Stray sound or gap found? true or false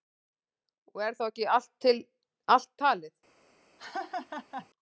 true